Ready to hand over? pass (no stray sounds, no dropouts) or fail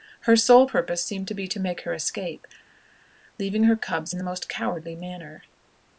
pass